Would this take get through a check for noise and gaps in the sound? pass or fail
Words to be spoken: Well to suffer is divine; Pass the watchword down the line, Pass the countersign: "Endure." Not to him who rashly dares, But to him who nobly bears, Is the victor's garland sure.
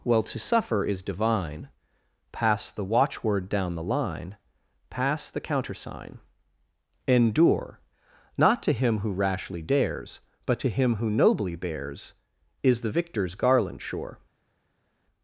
pass